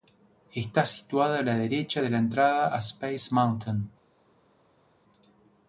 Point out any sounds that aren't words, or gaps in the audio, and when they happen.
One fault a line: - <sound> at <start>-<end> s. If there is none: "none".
none